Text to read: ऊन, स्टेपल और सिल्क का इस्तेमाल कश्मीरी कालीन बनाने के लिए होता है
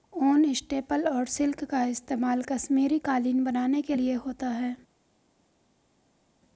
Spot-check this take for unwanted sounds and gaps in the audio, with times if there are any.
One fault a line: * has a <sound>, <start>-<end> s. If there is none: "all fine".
all fine